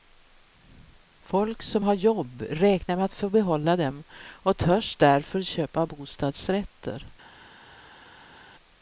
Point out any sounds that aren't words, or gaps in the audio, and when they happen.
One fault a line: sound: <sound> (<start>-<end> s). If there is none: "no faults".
no faults